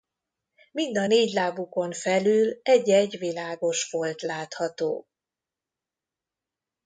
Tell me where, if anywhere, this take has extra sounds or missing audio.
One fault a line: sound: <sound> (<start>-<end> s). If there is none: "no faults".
no faults